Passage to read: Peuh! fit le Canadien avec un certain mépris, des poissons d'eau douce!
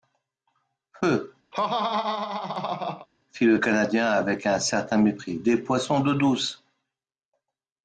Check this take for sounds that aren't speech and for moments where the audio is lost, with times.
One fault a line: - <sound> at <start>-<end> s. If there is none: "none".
- laugh at 1.5-3.1 s